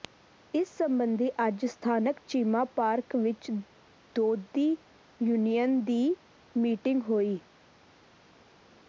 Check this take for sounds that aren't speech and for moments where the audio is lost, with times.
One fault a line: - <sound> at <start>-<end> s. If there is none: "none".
none